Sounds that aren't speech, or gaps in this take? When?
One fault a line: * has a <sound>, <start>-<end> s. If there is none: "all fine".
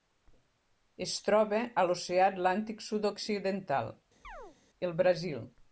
* has a chirp, 4.2-4.6 s